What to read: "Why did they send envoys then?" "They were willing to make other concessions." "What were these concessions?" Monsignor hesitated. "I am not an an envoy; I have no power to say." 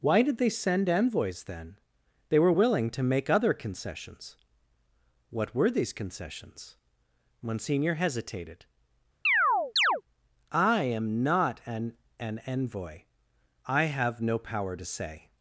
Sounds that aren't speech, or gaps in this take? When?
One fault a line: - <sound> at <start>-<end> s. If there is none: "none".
- chirp at 9.2-10.0 s